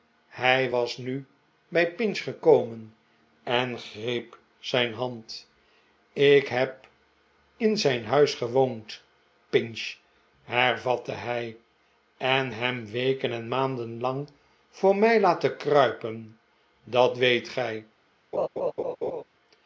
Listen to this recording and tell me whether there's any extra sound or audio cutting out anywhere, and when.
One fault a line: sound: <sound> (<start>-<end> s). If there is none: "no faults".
sound: laugh (18.3-19.2 s)